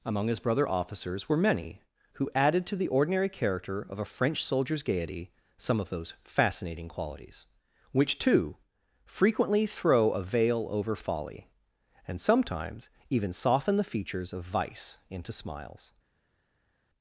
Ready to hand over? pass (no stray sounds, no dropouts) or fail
pass